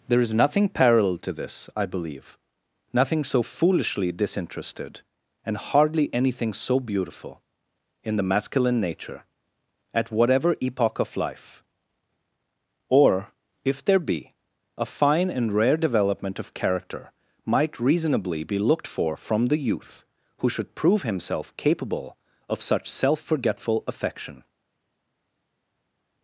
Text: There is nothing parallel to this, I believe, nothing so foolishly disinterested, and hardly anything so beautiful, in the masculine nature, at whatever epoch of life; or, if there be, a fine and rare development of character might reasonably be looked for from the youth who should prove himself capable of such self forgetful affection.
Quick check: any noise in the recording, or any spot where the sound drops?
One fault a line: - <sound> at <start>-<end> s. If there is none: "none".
none